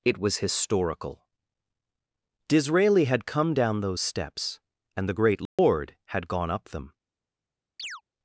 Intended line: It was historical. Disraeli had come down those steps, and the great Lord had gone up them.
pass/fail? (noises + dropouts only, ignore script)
fail